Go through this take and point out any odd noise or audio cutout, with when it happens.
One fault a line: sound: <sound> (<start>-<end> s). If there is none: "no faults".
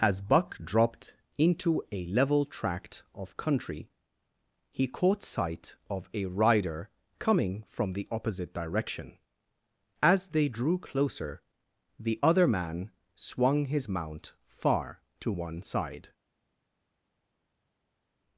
no faults